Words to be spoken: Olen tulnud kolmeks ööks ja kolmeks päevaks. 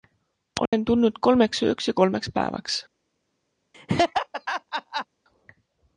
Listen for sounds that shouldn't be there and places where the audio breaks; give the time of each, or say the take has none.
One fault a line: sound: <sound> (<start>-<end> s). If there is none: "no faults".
sound: dropout (0.7-0.7 s)
sound: laugh (3.7-5.1 s)